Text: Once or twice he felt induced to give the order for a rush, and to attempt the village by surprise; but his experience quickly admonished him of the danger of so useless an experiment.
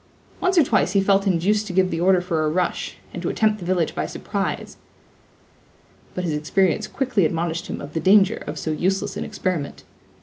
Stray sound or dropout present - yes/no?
no